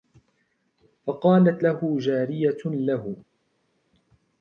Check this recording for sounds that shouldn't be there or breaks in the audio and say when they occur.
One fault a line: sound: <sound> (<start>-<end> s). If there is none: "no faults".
no faults